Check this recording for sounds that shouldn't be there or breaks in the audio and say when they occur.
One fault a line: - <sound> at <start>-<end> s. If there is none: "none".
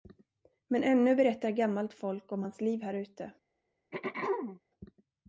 - throat clearing at 3.9-4.6 s